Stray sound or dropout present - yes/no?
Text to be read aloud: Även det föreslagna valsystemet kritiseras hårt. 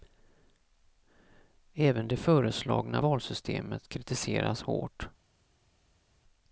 no